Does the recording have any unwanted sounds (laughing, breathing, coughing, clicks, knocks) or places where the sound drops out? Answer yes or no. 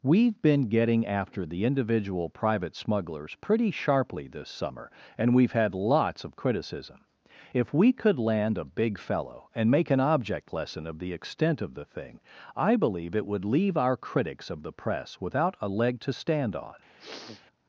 yes